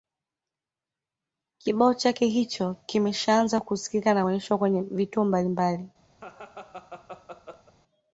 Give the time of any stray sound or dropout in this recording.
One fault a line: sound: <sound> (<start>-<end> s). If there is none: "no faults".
sound: laugh (6.2-7.7 s)